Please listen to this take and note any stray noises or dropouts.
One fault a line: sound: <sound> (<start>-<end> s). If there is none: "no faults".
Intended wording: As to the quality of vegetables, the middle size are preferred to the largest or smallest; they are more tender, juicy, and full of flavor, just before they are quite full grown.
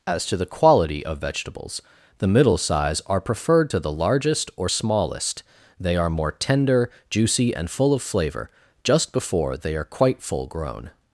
no faults